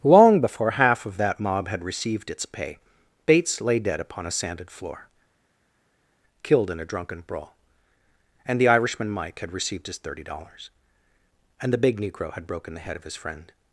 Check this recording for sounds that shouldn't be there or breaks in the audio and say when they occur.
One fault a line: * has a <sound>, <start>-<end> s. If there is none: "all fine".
all fine